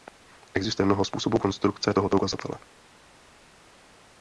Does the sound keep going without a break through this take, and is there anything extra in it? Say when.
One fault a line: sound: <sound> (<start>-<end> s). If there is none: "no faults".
no faults